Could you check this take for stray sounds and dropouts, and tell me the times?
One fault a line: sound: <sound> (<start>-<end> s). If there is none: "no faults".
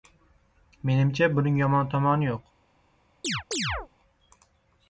sound: chirp (3.2-3.9 s)